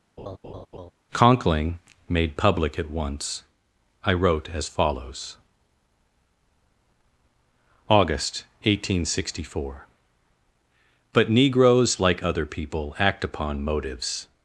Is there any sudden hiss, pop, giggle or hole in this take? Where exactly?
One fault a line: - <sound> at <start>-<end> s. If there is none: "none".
- laugh at 0.2-0.9 s